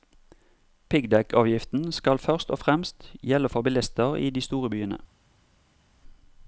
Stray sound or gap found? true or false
false